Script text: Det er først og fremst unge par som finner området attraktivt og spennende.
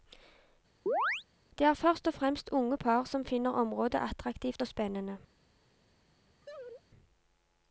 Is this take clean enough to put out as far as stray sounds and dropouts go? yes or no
no